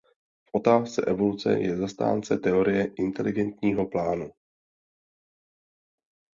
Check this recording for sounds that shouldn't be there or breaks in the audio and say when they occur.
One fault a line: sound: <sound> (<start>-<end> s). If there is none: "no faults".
no faults